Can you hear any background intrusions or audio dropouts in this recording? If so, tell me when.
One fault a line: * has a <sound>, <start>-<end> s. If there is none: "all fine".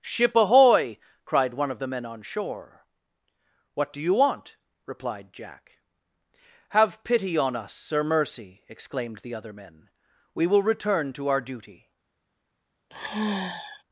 * has a sigh, 12.9-13.8 s